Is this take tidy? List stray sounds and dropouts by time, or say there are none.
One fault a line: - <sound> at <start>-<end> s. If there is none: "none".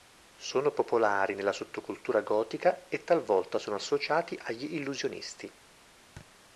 - thud at 6.2-6.3 s